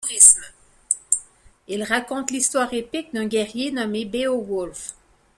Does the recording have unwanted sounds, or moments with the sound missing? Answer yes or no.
no